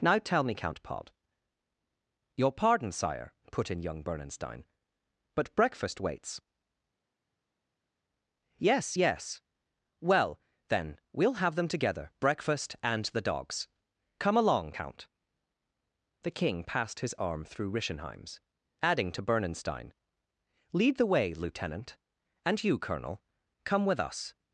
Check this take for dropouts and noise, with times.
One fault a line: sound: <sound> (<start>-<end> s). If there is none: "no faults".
no faults